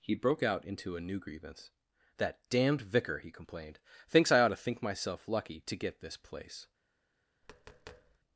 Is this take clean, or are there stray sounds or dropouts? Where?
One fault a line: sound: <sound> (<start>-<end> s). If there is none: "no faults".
sound: tap (7.4-8.2 s)